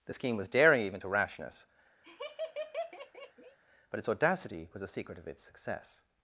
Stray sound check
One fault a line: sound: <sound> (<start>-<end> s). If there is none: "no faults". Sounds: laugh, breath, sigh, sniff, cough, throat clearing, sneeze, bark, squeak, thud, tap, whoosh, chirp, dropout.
sound: laugh (2.0-3.6 s)